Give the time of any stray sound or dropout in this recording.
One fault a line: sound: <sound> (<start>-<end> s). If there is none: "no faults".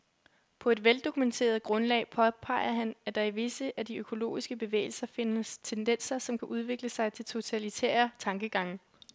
no faults